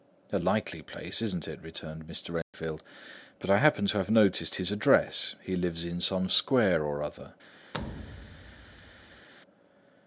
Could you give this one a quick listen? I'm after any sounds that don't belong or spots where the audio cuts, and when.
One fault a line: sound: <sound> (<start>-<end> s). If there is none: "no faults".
sound: dropout (2.4-2.5 s)
sound: thud (7.7-9.3 s)